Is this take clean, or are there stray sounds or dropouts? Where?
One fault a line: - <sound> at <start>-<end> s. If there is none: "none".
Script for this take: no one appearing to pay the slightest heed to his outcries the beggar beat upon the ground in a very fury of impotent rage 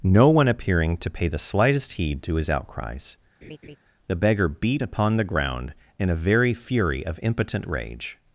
- laugh at 3.4-3.8 s